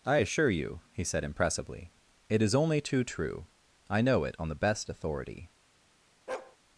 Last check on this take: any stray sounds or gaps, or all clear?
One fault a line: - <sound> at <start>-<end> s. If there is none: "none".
- bark at 6.3-6.6 s